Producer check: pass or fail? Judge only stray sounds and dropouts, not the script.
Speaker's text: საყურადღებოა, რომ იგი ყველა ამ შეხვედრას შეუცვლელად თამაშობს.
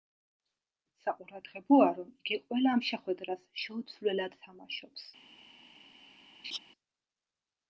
fail